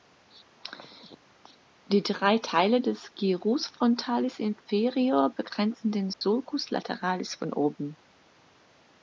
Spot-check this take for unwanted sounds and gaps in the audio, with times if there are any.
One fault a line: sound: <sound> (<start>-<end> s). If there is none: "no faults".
sound: dropout (6.1-6.2 s)